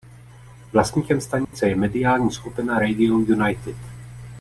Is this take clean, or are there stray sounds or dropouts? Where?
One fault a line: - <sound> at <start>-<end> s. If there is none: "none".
- dropout at 1.4-1.5 s